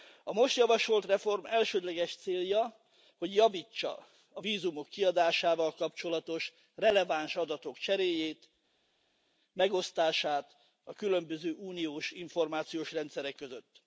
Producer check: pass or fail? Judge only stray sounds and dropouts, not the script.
pass